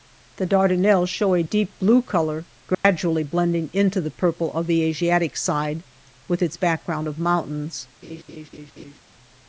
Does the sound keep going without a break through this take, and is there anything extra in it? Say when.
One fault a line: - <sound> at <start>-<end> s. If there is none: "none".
- dropout at 2.7-2.8 s
- laugh at 8.0-9.0 s